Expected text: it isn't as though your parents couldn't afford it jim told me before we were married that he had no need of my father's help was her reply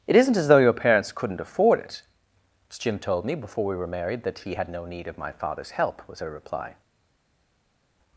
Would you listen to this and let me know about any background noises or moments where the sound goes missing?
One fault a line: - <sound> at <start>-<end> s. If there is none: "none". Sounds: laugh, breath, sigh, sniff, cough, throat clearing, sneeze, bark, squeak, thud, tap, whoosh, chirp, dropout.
none